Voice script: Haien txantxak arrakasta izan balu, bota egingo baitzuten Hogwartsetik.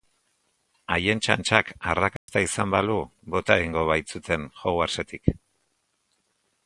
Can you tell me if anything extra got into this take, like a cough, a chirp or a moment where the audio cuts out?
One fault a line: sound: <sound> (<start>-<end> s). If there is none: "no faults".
sound: dropout (2.2-2.3 s)